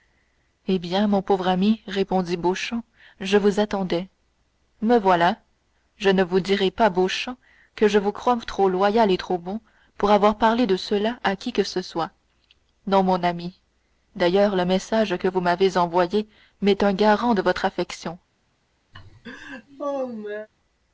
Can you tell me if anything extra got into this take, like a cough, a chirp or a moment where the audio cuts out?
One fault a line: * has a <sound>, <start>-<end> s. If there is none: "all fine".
* has a laugh, 18.9-20.5 s